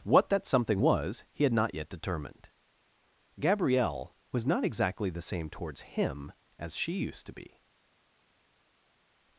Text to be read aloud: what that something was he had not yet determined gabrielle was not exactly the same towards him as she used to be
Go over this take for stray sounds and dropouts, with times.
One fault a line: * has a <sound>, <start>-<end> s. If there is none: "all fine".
all fine